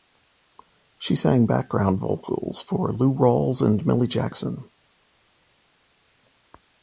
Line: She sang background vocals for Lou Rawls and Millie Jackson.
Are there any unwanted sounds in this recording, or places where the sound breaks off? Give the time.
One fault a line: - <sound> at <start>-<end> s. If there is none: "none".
none